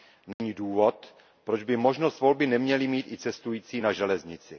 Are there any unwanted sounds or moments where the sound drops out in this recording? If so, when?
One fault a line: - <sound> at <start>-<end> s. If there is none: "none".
- dropout at 0.3-0.4 s